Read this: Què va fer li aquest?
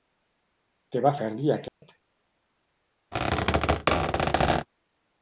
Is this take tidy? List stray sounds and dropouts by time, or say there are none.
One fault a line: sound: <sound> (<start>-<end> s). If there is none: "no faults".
sound: dropout (1.7-1.8 s)
sound: squeak (3.1-4.7 s)